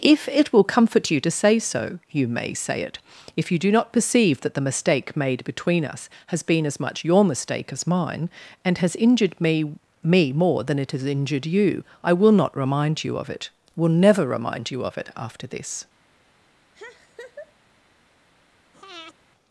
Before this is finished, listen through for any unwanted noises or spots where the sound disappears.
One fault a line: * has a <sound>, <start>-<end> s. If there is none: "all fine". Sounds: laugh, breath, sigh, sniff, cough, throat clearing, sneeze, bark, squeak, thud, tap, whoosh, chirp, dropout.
* has a laugh, 16.7-17.5 s
* has a breath, 18.7-19.1 s